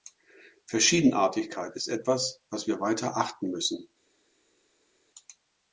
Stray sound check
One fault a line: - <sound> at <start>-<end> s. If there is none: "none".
none